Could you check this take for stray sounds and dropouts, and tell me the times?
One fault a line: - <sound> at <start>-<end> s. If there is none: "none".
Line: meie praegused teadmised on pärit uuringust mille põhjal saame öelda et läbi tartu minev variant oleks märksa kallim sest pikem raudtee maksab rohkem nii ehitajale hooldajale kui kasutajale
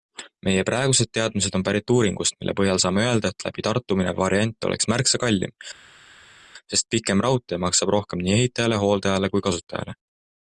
none